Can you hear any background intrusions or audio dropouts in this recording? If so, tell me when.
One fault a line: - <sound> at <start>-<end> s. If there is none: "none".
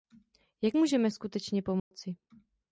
- dropout at 1.8-1.9 s